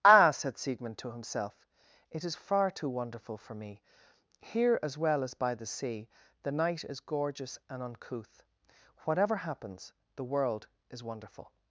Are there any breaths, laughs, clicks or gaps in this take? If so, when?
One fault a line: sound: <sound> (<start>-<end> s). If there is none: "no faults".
no faults